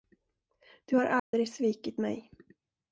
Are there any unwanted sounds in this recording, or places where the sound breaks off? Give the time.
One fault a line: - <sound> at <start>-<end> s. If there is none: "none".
- dropout at 1.2-1.3 s